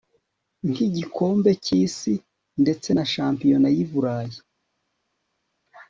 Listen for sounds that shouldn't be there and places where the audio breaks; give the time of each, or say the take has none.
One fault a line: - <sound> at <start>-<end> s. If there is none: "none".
none